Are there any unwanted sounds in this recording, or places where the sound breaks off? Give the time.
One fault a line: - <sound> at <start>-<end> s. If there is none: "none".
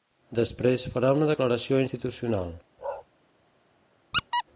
- bark at 2.8-3.1 s
- squeak at 4.1-4.4 s